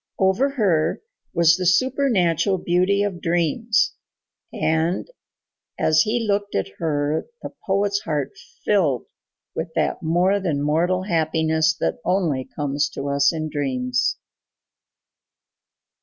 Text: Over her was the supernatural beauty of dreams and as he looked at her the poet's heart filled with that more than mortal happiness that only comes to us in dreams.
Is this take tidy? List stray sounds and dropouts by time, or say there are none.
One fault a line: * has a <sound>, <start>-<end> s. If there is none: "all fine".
all fine